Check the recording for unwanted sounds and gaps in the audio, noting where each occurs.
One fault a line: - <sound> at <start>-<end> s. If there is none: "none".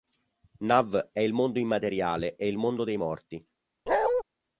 - bark at 3.9-4.2 s